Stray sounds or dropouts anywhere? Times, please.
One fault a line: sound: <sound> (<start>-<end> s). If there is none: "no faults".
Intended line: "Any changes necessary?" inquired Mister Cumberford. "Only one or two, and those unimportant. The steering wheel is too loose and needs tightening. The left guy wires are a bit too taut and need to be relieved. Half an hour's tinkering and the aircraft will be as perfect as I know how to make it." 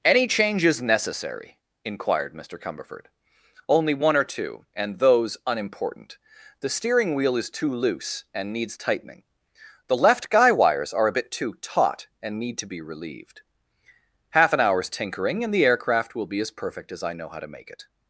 no faults